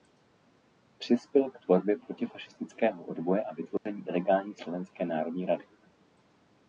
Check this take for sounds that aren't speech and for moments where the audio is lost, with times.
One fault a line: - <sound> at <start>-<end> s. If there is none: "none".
- dropout at 3.8-3.9 s